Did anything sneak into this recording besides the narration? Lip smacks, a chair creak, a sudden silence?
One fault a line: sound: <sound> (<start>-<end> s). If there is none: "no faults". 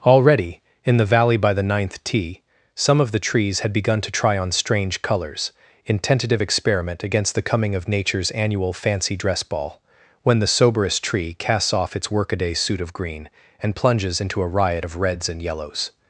no faults